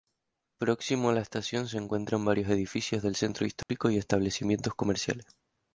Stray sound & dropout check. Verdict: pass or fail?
fail